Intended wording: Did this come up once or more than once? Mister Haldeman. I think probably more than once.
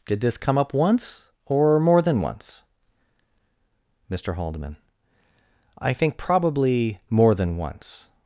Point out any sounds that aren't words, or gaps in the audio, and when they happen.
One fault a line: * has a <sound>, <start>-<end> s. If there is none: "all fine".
all fine